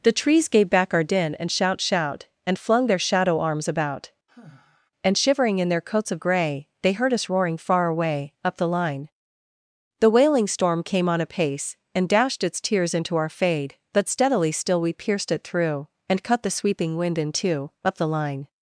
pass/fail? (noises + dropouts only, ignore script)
fail